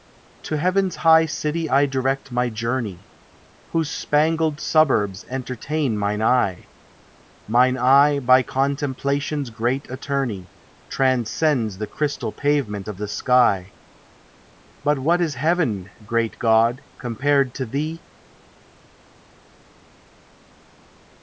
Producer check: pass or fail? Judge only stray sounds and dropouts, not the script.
pass